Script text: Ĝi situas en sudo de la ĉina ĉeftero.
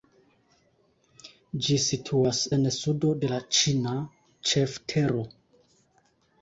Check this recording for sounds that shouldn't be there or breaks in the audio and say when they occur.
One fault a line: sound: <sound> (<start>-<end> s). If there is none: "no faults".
no faults